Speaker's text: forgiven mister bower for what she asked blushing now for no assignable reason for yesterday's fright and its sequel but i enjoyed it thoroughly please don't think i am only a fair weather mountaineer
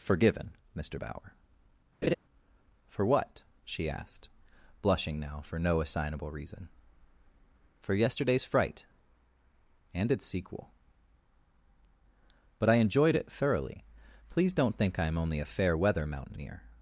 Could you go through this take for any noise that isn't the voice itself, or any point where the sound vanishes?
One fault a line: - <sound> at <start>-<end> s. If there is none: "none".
- laugh at 2.0-2.2 s